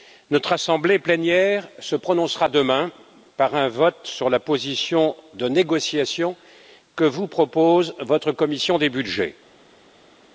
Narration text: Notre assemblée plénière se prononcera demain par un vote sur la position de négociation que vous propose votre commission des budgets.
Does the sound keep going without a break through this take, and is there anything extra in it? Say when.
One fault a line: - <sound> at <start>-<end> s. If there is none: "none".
none